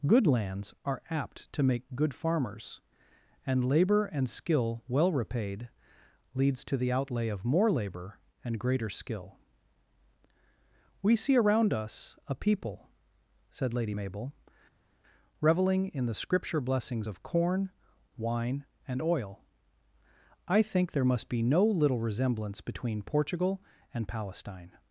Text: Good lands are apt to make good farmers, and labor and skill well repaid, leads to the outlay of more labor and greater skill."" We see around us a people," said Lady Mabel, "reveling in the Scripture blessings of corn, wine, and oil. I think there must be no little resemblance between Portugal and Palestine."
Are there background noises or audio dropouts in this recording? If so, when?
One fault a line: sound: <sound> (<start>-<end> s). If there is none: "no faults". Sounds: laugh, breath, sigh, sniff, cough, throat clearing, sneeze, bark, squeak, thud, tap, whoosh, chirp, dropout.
no faults